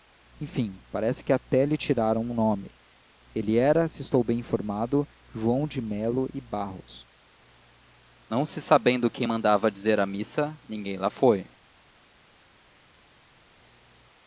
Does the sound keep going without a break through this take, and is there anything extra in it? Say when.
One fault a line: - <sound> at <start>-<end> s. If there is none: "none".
none